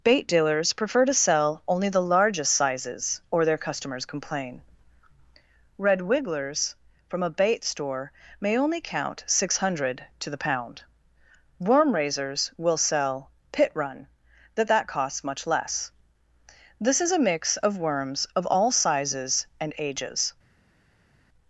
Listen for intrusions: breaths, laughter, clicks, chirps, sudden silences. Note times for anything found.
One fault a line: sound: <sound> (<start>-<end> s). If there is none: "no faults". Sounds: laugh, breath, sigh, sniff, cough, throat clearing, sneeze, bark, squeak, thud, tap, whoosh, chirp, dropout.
no faults